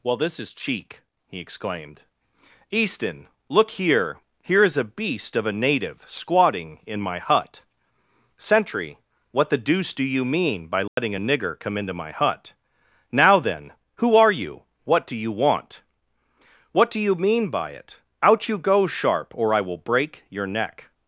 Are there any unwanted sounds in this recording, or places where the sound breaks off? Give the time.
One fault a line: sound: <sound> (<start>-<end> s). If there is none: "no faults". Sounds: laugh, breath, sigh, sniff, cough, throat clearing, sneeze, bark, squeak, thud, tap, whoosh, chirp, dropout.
sound: dropout (10.9-11.0 s)